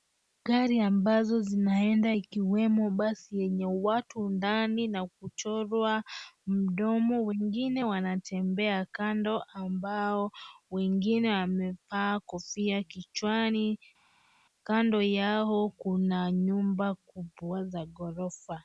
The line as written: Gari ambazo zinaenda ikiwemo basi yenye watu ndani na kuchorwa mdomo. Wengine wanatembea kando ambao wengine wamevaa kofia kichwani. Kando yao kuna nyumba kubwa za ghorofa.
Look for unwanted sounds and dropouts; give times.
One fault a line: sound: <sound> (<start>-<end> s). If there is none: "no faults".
no faults